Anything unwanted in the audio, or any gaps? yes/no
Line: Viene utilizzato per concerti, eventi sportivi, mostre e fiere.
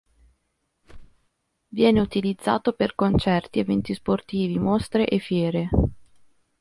yes